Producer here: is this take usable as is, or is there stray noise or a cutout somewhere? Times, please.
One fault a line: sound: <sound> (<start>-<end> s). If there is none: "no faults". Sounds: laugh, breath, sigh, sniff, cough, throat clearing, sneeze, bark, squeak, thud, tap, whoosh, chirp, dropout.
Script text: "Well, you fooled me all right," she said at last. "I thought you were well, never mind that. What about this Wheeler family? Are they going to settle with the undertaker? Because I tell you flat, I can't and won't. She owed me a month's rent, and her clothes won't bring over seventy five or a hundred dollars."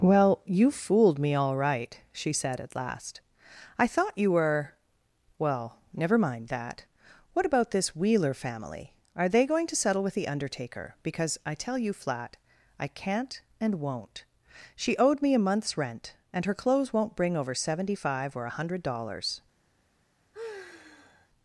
sound: sigh (20.3-21.3 s)